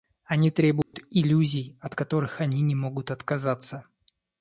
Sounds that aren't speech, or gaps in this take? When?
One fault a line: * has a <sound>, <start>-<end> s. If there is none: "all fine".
* has a dropout, 0.8-0.9 s